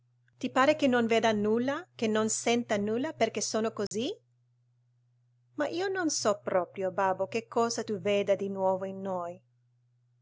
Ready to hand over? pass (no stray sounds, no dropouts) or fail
fail